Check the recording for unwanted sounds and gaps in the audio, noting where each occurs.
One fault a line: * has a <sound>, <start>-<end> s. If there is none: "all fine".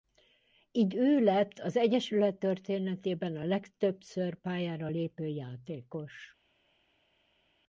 all fine